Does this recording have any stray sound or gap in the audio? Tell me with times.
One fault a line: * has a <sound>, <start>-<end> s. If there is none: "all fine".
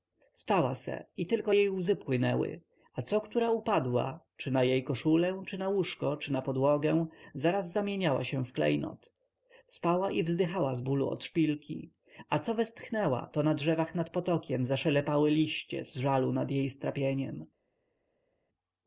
all fine